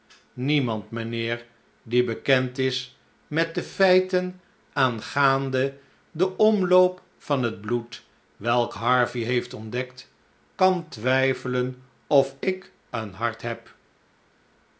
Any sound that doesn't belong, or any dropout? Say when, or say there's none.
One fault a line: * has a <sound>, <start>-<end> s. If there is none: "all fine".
all fine